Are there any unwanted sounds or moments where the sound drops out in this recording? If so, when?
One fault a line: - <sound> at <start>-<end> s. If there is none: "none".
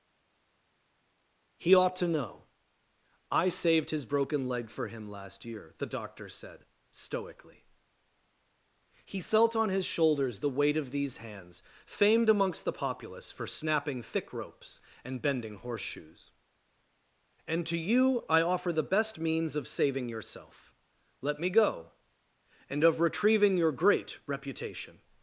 none